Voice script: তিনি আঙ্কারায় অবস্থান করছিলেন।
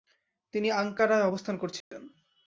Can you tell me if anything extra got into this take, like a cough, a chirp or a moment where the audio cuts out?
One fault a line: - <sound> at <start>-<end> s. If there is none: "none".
- dropout at 1.8-1.9 s